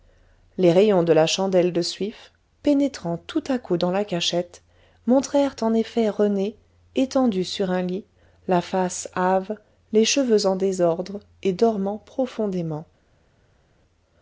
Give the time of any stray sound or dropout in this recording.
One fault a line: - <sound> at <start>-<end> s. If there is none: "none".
none